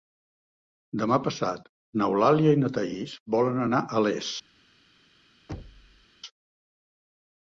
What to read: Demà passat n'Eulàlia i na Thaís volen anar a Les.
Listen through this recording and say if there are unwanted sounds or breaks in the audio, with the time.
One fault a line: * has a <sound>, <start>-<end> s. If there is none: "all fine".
* has a thud, 5.5-6.1 s